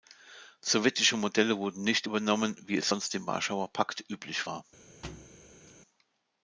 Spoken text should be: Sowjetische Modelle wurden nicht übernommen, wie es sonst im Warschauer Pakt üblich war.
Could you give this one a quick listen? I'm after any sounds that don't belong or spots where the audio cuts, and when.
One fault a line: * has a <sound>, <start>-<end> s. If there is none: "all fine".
* has a thud, 5.0-5.7 s